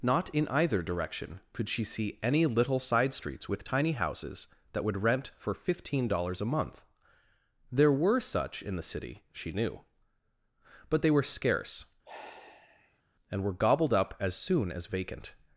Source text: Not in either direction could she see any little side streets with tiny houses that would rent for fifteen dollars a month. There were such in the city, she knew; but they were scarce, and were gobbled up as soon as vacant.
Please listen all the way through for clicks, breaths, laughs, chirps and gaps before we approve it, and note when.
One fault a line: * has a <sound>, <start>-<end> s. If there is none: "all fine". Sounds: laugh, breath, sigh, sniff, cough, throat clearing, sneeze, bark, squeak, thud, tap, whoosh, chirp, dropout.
* has a sigh, 12.0-13.0 s